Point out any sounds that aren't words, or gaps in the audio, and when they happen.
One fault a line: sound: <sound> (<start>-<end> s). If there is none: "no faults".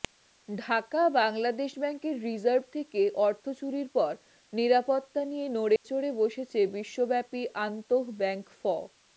sound: dropout (5.8-5.8 s)